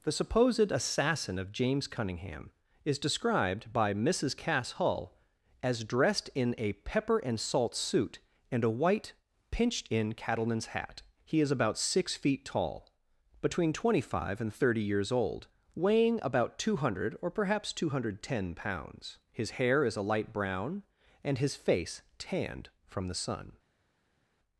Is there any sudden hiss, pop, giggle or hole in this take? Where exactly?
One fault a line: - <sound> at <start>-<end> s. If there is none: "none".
none